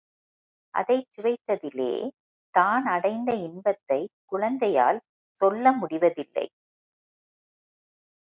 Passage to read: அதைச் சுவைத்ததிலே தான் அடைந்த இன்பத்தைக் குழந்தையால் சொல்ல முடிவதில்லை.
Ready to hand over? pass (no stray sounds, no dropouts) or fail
pass